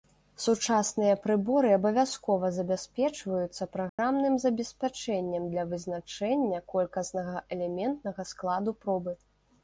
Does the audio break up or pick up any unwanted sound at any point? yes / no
yes